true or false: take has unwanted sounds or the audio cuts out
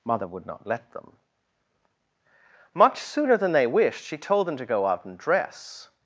false